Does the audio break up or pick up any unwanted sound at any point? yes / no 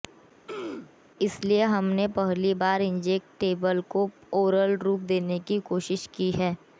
yes